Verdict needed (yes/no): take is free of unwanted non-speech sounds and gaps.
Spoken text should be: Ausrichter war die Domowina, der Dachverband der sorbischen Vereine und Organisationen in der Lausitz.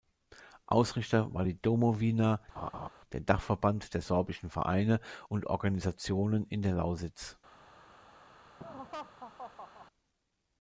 no